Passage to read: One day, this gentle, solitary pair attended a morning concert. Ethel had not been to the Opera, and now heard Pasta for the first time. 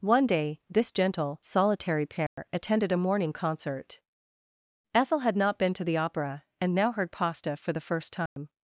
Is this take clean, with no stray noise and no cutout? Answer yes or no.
no